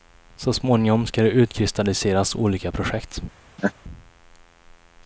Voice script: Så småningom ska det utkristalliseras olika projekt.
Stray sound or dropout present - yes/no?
yes